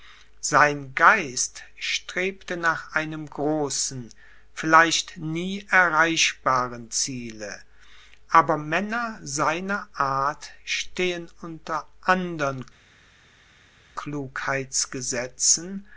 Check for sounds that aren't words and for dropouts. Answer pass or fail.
pass